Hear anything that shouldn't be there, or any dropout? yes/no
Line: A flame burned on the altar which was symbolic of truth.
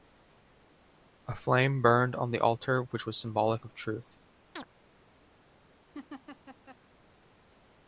yes